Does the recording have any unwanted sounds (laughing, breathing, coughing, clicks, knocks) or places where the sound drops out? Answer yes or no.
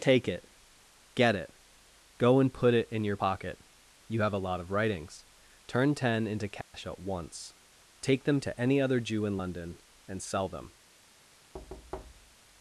yes